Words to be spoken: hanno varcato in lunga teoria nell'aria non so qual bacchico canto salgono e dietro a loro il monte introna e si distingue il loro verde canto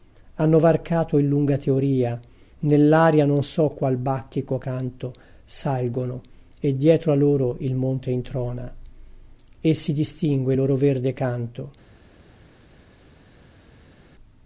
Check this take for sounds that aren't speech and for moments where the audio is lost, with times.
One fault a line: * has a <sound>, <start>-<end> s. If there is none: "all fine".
all fine